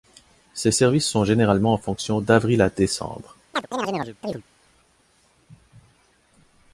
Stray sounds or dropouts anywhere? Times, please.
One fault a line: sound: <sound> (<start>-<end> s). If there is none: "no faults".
sound: chirp (3.5-4.4 s)